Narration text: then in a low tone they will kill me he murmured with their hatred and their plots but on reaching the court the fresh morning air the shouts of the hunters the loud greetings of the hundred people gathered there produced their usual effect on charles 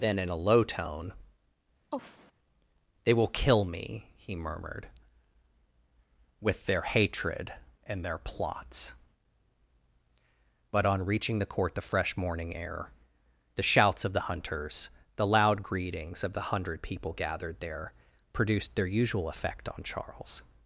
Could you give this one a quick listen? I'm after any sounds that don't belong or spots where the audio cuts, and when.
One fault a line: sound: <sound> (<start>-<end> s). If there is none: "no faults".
sound: sigh (1.9-2.3 s)